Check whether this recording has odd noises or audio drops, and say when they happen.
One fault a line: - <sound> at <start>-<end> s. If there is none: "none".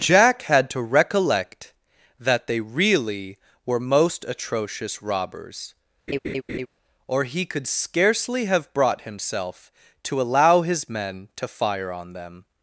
- laugh at 6.1-6.7 s